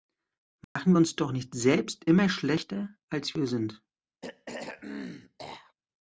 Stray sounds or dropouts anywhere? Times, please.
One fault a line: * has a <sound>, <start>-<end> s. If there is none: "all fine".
* has a dropout, 0.6-0.8 s
* has a throat clearing, 4.2-5.7 s